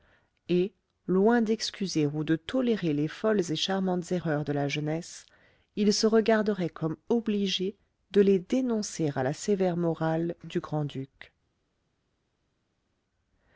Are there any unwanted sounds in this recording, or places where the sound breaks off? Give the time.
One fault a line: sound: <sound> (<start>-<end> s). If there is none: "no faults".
no faults